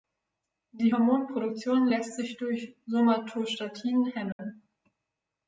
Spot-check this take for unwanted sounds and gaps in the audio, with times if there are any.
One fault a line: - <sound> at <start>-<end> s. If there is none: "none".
- dropout at 4.3-4.4 s